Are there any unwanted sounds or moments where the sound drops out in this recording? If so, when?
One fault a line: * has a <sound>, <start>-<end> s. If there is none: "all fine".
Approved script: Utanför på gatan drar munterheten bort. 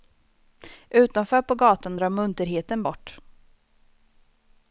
all fine